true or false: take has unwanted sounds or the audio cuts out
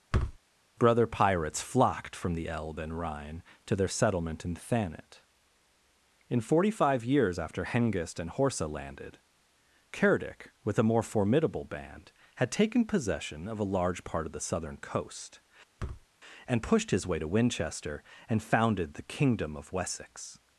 true